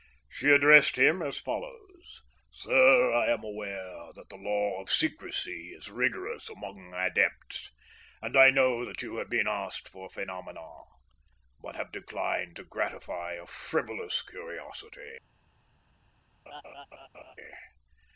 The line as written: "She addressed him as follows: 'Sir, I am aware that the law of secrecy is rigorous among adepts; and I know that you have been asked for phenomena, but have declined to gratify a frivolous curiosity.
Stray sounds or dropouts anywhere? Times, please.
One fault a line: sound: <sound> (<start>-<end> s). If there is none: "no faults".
sound: laugh (16.5-17.4 s)